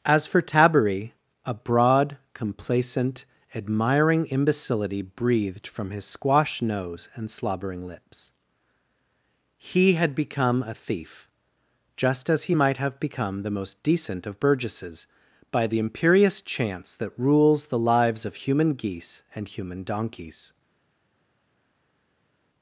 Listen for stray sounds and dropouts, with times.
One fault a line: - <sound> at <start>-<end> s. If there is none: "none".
none